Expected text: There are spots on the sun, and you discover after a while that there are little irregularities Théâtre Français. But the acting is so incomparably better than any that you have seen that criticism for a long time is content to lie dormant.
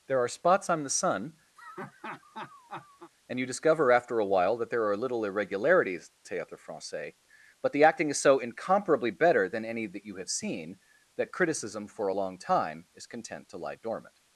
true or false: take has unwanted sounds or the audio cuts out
true